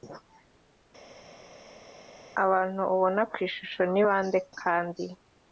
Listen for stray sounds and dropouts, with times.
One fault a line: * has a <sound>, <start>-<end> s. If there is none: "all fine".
all fine